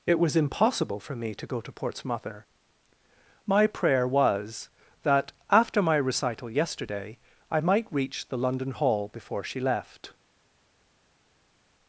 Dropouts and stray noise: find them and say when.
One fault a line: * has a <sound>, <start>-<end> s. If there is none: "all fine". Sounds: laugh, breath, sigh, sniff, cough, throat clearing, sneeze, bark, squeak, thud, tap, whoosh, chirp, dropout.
all fine